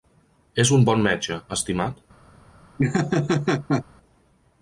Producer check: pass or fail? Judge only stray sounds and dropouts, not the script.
fail